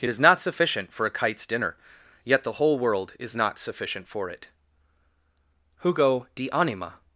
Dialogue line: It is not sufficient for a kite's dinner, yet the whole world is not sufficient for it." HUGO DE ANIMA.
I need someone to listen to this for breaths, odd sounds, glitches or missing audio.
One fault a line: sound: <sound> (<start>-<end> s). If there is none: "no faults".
no faults